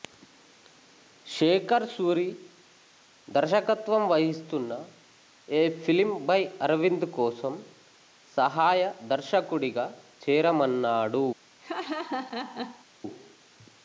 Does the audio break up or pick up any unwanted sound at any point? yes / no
yes